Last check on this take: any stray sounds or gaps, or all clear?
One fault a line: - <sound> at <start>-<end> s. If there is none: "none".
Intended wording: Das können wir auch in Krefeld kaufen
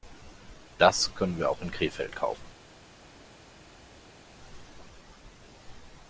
none